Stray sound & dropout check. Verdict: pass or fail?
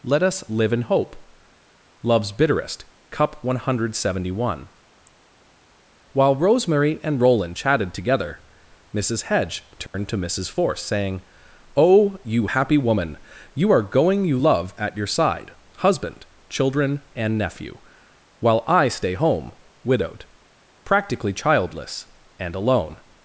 fail